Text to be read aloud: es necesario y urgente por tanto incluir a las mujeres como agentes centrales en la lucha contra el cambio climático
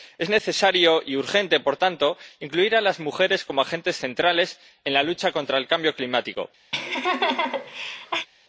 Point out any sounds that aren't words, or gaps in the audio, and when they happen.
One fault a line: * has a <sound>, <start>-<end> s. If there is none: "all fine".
* has a laugh, 6.7-8.3 s